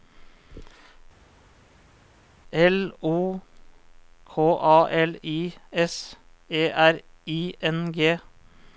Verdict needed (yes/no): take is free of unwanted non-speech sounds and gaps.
yes